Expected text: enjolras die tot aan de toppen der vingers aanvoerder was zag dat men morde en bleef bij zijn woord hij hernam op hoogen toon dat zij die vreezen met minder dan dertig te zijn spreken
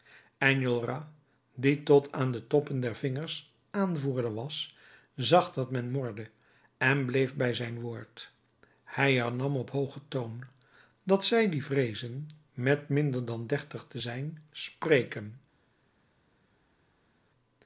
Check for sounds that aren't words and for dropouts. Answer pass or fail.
pass